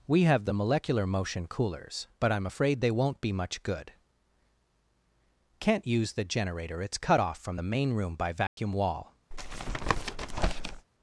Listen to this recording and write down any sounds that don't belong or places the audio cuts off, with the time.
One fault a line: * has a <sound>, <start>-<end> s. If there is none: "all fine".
* has a dropout, 8.5-8.6 s
* has a tap, 9.3-10.9 s